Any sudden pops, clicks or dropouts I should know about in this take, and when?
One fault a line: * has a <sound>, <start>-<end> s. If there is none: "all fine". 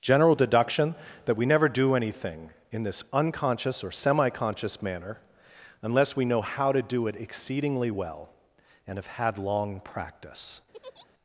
* has a laugh, 10.7-11.1 s